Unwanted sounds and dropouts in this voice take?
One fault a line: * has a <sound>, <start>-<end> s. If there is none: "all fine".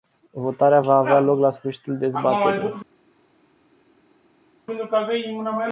all fine